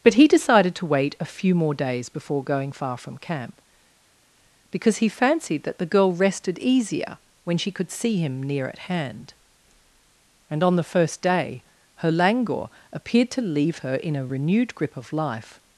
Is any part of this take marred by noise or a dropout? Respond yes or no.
no